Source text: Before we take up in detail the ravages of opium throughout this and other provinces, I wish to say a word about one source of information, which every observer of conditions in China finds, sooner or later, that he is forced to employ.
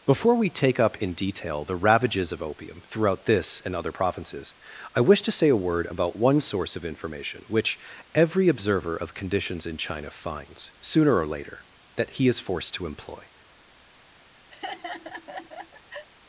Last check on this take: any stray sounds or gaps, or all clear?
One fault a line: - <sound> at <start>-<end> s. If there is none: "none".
- laugh at 14.5-16.1 s